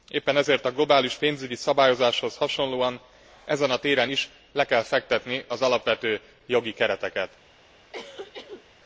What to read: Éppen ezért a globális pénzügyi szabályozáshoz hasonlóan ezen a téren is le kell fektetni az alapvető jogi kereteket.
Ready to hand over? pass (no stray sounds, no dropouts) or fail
fail